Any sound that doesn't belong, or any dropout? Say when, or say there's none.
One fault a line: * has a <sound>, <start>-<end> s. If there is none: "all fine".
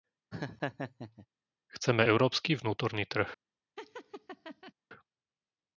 * has a laugh, 0.3-1.3 s
* has a laugh, 3.8-4.7 s